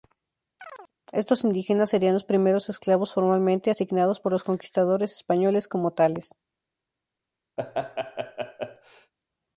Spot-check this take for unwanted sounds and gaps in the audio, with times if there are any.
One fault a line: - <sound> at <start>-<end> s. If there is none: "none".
- chirp at 0.6-0.9 s
- laugh at 7.6-9.1 s